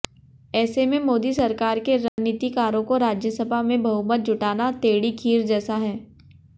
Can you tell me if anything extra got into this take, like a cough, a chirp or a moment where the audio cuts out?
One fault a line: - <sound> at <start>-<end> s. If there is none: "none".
- dropout at 2.1-2.2 s